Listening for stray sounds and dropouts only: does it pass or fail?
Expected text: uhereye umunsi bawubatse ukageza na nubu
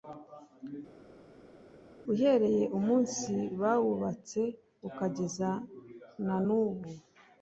pass